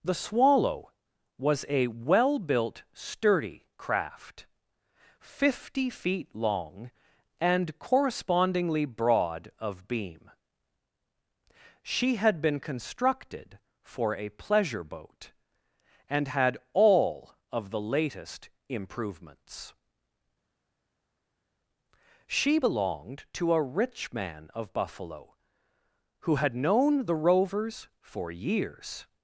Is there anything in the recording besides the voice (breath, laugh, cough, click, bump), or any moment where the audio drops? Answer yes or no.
no